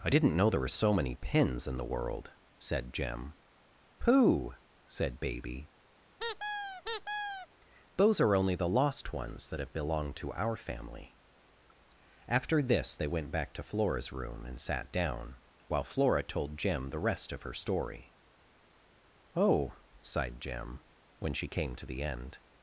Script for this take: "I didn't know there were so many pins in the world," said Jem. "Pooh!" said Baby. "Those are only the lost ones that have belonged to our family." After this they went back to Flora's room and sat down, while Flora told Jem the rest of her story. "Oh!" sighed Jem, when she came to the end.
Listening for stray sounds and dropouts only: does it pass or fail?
fail